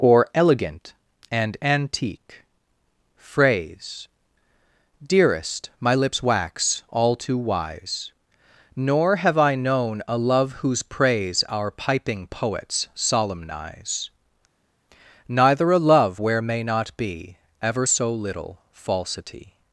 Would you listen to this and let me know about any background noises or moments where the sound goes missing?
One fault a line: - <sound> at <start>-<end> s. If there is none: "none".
none